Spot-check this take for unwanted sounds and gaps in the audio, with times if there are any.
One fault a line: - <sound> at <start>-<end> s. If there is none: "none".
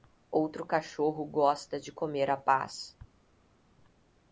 none